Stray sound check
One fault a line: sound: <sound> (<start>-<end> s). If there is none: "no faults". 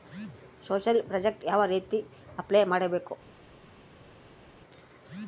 no faults